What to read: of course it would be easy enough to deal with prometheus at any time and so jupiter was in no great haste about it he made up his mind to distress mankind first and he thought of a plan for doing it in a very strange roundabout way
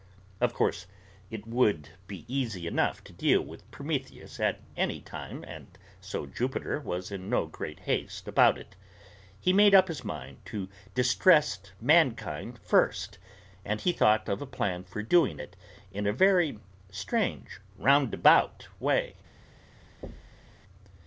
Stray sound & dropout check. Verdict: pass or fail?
fail